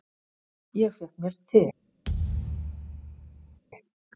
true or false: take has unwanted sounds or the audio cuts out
true